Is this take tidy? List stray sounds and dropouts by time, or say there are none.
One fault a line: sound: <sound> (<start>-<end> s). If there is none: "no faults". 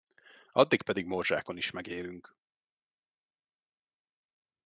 no faults